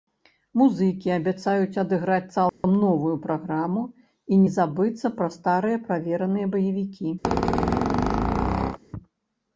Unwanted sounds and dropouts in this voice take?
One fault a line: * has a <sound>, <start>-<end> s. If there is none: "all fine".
* has a dropout, 2.5-2.6 s
* has a squeak, 7.2-8.8 s